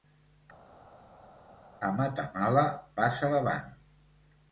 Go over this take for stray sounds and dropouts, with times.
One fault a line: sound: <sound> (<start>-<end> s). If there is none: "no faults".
no faults